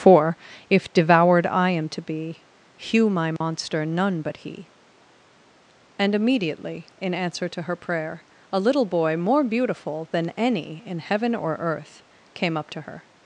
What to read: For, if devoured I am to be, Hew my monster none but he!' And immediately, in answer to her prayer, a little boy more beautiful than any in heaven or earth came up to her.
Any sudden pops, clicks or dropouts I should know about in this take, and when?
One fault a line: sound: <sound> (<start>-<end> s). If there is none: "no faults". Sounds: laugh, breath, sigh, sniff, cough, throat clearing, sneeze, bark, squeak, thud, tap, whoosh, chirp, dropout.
sound: dropout (3.4-3.4 s)